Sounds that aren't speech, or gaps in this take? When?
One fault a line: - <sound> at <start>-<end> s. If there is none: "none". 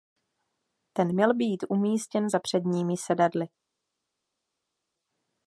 none